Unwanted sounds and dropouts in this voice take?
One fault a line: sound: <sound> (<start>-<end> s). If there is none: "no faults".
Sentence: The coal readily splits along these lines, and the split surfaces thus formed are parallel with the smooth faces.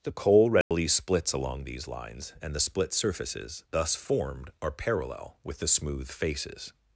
sound: dropout (0.6-0.7 s)